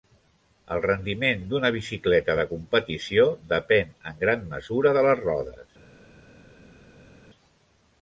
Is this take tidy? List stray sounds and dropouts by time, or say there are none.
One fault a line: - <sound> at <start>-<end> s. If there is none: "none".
none